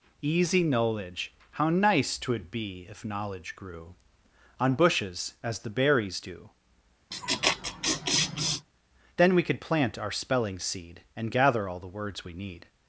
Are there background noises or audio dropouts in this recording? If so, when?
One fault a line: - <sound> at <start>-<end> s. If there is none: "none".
- laugh at 7.1-8.7 s